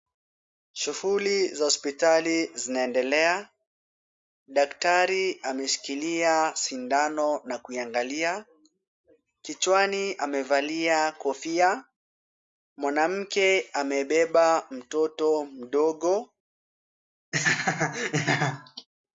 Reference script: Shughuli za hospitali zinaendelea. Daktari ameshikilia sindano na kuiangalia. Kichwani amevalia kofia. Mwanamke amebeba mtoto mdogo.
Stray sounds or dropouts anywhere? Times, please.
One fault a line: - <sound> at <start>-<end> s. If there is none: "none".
- laugh at 17.3-18.9 s